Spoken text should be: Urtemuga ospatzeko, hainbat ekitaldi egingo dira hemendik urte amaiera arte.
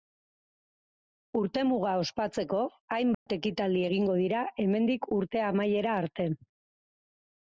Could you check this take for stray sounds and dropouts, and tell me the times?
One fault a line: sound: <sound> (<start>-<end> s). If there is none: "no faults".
sound: dropout (3.1-3.3 s)